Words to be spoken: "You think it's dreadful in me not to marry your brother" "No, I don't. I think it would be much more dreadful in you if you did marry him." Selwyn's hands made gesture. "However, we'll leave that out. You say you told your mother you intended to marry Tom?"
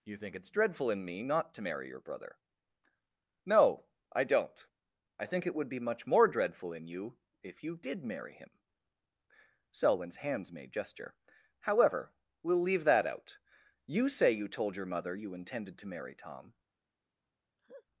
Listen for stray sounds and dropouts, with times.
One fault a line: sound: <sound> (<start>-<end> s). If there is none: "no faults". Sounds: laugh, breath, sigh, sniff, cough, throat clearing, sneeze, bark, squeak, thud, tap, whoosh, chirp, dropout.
sound: laugh (17.6-17.8 s)